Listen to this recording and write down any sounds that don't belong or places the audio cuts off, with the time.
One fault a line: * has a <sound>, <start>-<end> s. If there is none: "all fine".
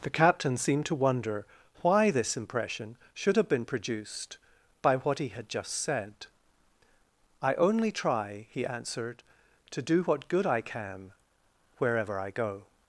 all fine